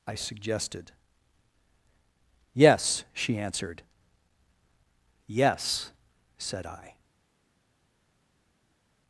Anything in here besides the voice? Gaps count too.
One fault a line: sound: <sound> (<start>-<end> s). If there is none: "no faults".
no faults